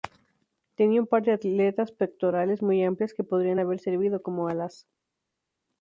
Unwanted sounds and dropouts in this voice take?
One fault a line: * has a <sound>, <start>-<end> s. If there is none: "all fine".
all fine